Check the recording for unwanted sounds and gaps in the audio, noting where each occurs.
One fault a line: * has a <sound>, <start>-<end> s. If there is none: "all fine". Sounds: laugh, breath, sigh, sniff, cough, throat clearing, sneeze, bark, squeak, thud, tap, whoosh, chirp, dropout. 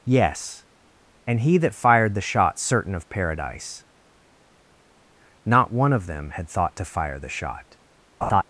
* has a laugh, 8.2-8.4 s